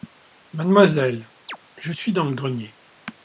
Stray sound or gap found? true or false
true